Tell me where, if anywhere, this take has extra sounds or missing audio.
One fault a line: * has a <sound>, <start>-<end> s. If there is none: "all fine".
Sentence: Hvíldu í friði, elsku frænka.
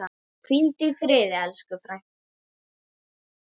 all fine